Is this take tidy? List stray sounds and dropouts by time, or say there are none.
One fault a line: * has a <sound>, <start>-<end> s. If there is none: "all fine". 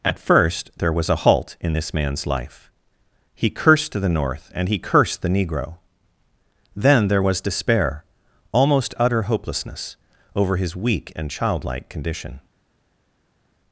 all fine